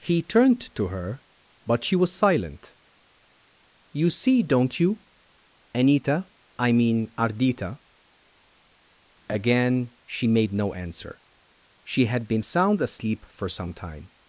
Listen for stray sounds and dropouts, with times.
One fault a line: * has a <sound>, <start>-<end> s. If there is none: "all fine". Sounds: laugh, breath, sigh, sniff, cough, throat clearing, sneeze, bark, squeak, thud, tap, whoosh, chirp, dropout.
all fine